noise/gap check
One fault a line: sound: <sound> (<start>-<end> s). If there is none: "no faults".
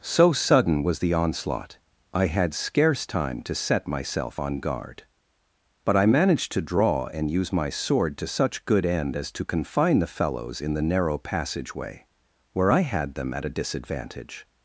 no faults